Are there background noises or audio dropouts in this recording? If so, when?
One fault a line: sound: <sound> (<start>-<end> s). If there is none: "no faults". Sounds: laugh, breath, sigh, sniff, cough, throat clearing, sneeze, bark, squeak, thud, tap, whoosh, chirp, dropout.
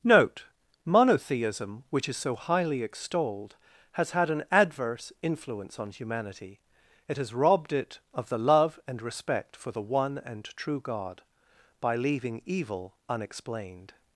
no faults